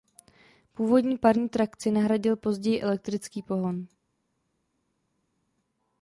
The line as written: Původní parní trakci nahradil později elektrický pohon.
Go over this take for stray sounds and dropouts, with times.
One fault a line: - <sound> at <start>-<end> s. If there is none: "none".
none